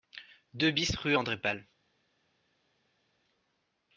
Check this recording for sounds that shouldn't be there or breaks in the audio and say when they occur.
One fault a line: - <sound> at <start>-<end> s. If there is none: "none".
none